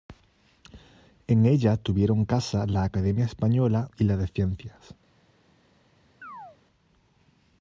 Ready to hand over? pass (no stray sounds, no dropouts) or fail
fail